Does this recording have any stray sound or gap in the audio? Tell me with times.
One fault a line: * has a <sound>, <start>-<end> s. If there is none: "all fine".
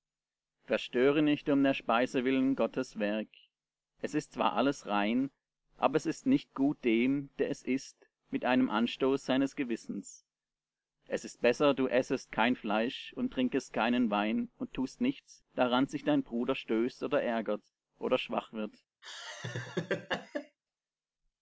* has a laugh, 19.0-20.6 s